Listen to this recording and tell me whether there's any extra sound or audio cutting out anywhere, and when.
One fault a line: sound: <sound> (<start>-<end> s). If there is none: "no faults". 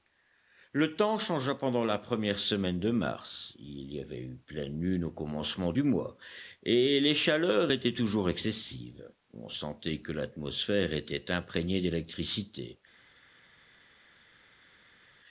no faults